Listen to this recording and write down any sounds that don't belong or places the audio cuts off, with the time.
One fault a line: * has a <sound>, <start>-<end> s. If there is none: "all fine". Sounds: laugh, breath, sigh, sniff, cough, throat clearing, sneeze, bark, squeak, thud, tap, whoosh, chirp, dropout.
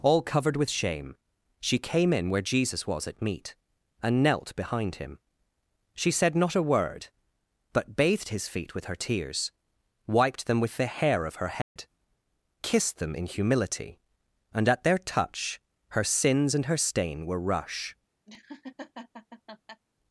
* has a dropout, 11.6-11.8 s
* has a laugh, 18.3-19.8 s